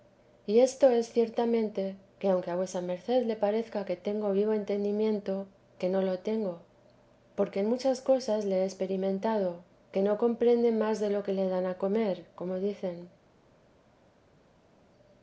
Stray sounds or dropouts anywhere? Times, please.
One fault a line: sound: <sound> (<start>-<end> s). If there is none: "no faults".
no faults